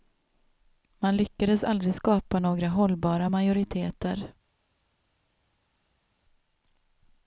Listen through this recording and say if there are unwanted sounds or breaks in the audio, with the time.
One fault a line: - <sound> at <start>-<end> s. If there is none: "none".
none